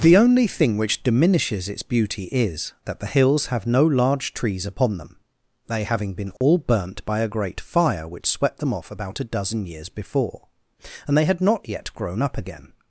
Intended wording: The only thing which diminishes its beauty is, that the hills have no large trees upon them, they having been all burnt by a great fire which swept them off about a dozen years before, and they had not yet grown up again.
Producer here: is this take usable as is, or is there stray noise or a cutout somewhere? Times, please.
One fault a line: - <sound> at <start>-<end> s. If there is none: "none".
- dropout at 6.4-6.4 s